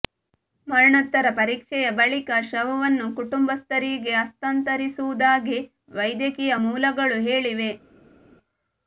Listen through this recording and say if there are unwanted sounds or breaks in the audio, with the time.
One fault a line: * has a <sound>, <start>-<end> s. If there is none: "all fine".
all fine